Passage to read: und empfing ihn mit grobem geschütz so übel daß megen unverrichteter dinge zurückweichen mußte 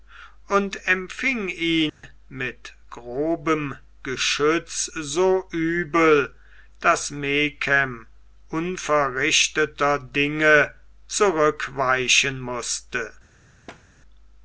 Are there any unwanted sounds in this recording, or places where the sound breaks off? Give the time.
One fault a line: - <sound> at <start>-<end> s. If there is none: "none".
- dropout at 1.9-2.0 s
- thud at 13.7-13.8 s